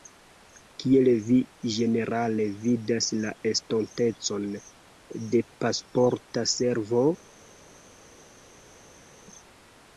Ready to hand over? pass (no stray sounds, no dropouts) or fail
pass